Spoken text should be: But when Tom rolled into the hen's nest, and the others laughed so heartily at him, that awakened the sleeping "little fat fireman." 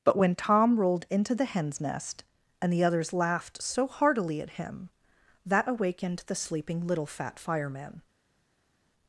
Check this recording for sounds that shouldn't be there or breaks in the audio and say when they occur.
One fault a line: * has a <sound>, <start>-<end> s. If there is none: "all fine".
all fine